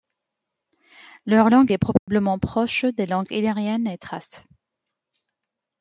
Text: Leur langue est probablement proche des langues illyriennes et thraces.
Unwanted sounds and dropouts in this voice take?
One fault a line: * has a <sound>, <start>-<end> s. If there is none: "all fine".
* has a dropout, 2.0-2.1 s